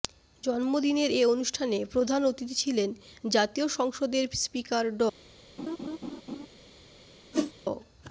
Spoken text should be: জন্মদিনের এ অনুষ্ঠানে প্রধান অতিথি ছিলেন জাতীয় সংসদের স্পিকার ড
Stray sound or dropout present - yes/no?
yes